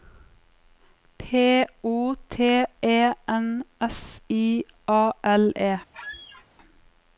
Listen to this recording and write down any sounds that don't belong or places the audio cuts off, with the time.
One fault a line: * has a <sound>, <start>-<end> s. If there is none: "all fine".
* has a squeak, 5.9-6.5 s